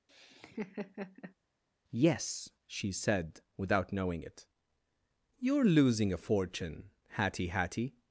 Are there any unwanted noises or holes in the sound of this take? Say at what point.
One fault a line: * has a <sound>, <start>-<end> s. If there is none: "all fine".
* has a laugh, 0.1-1.3 s